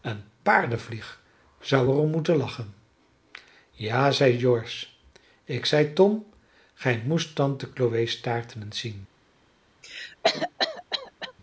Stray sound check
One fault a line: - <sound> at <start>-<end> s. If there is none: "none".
- cough at 9.8-11.3 s